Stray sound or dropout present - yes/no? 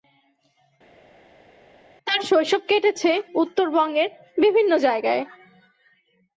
no